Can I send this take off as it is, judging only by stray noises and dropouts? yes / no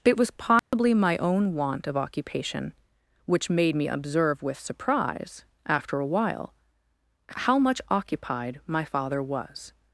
no